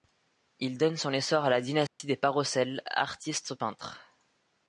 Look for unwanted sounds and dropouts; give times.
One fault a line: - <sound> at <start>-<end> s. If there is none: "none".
- dropout at 1.9-2.0 s